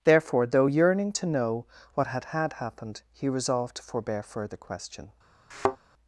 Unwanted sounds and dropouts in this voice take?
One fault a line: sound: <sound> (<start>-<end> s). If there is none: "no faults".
sound: thud (5.5-5.8 s)